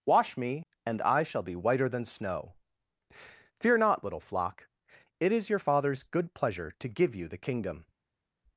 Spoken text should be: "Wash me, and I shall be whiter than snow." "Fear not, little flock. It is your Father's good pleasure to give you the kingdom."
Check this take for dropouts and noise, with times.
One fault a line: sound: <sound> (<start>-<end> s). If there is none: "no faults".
no faults